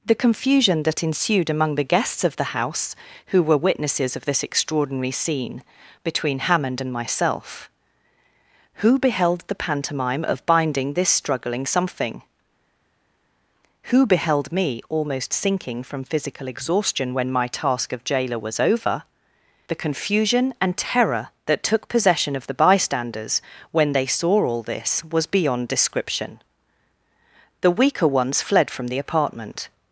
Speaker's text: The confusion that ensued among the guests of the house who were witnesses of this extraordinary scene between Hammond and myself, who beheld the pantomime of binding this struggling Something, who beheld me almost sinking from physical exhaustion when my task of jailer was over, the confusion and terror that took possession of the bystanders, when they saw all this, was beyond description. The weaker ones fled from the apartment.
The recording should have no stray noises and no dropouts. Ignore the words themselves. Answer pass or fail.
pass